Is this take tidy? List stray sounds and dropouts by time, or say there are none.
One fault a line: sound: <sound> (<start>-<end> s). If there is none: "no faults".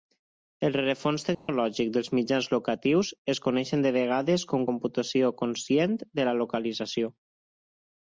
sound: dropout (1.3-1.5 s)